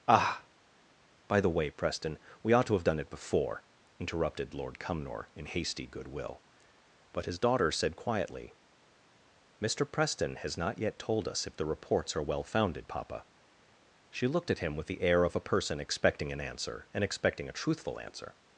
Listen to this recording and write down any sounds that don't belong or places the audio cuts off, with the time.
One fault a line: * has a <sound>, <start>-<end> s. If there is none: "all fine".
all fine